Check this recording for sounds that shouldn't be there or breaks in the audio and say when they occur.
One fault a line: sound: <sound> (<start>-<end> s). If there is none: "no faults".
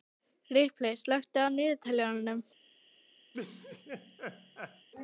sound: laugh (3.3-4.9 s)